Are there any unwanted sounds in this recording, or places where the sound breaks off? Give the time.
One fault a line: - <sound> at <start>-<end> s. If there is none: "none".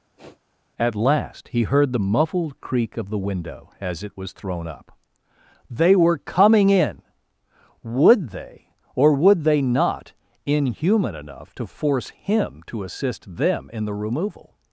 - sniff at 0.2-0.4 s